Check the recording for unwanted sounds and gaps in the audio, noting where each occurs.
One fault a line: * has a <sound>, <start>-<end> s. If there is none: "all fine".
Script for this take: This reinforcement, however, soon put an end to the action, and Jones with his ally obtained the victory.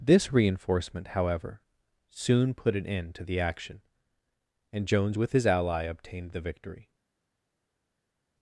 all fine